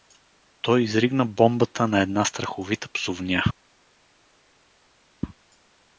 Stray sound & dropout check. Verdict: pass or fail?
pass